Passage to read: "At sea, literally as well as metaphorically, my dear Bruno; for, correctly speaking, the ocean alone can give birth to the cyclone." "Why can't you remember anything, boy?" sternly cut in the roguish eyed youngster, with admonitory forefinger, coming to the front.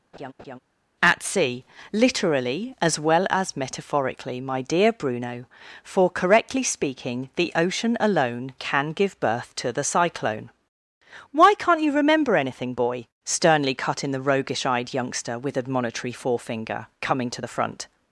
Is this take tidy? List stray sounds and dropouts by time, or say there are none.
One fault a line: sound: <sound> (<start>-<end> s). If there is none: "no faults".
sound: laugh (0.1-0.6 s)